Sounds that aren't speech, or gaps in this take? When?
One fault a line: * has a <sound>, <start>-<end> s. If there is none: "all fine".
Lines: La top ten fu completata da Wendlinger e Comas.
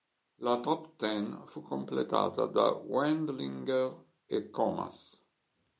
all fine